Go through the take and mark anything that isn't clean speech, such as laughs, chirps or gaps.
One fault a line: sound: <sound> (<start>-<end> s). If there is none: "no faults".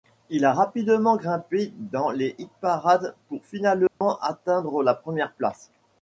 sound: dropout (3.9-4.0 s)